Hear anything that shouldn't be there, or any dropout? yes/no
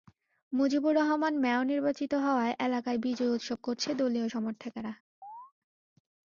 yes